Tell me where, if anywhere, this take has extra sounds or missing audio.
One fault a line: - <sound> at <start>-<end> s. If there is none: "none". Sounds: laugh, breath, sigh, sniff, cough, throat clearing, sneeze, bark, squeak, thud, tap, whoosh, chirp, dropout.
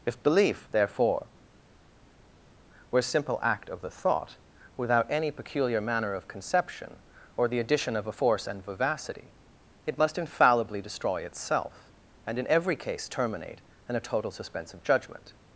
none